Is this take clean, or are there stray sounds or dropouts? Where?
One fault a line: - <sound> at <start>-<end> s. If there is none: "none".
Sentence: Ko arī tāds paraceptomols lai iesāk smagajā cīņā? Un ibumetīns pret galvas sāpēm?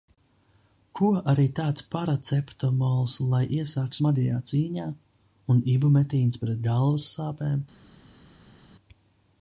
none